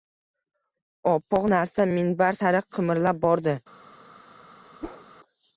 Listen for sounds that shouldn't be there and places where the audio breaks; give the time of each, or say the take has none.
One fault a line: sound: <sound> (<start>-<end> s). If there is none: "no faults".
sound: whoosh (4.8-5.1 s)